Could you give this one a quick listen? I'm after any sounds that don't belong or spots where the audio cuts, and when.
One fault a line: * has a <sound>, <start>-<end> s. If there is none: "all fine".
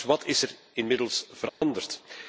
* has a dropout, 1.5-1.6 s